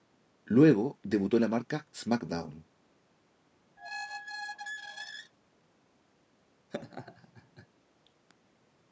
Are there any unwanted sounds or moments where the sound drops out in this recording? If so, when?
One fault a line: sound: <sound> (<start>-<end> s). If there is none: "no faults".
sound: squeak (3.8-5.3 s)
sound: laugh (6.7-7.7 s)